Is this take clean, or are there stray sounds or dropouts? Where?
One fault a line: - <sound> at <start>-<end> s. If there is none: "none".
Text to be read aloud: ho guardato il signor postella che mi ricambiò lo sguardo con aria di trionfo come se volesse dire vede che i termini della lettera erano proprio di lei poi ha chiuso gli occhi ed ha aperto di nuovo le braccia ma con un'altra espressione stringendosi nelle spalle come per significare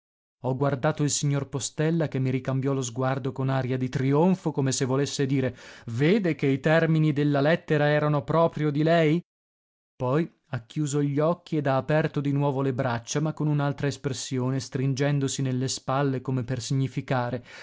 none